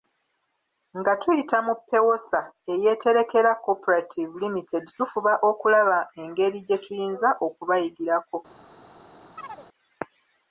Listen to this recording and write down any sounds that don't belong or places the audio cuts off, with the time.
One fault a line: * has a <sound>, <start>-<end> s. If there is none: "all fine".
* has a chirp, 9.4-9.7 s